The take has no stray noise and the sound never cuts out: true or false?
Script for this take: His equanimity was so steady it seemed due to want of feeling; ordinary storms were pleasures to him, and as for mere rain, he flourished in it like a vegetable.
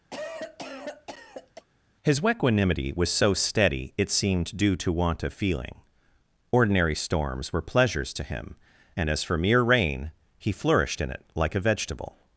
false